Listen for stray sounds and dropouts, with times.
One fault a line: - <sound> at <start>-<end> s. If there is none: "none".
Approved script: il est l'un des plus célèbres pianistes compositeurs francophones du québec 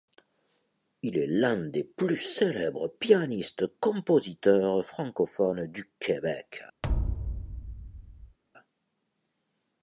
- thud at 6.8-8.4 s